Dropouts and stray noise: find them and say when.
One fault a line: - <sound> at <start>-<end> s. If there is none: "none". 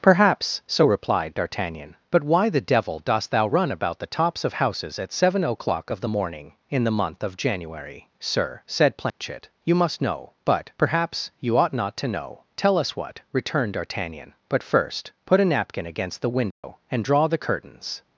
- dropout at 9.1-9.2 s
- dropout at 16.5-16.6 s